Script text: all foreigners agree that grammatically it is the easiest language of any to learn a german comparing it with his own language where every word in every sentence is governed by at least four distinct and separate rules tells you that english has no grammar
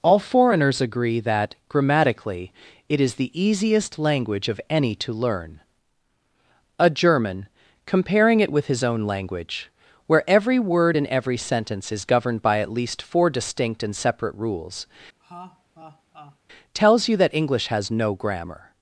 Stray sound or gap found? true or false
true